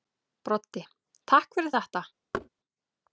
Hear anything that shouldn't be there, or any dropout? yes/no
yes